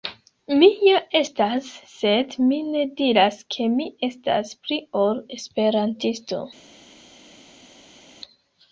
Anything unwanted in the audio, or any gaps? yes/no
no